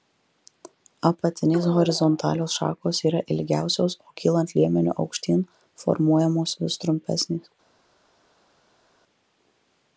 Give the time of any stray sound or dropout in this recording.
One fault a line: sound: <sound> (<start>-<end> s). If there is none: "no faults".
no faults